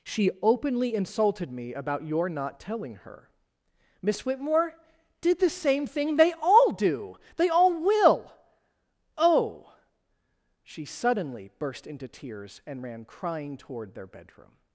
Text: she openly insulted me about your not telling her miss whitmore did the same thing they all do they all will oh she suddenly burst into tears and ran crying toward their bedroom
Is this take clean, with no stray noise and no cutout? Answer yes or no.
yes